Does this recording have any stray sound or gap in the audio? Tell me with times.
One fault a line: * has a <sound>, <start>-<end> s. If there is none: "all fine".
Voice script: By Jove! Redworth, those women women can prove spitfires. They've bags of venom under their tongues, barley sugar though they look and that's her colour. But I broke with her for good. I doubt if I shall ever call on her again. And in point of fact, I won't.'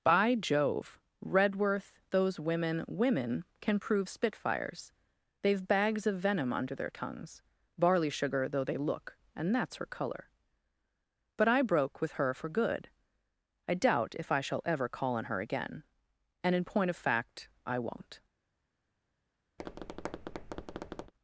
* has a tap, 19.6-21.1 s